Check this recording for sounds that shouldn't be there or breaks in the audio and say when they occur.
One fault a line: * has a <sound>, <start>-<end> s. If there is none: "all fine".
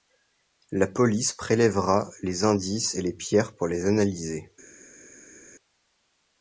all fine